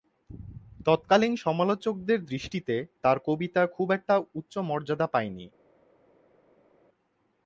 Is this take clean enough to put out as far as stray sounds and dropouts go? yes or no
yes